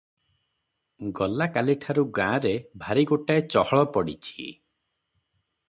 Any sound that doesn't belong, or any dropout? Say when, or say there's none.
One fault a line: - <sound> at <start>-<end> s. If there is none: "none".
none